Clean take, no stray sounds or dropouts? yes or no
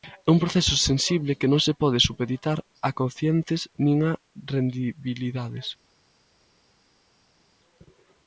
yes